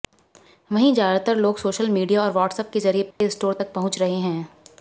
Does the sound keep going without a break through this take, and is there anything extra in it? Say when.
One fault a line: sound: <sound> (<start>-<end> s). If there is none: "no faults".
sound: dropout (3.1-3.2 s)